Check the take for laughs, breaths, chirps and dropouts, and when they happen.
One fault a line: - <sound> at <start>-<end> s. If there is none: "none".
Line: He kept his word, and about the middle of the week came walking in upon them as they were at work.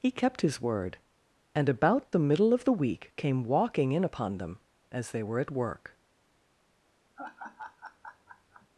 - laugh at 7.2-8.7 s